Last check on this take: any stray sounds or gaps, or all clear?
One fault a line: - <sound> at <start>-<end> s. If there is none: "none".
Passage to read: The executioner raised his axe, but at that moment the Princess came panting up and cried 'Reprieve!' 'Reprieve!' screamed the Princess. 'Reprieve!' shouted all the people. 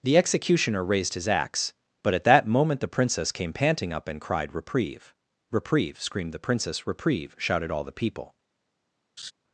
- laugh at 9.2-9.3 s